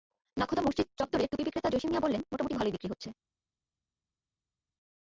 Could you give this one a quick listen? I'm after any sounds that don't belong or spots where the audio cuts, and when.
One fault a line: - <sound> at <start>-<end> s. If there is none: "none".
none